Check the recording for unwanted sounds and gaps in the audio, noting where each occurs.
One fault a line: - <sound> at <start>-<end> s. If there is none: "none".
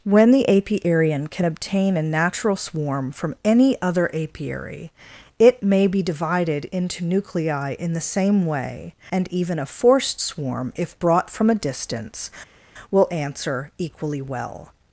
none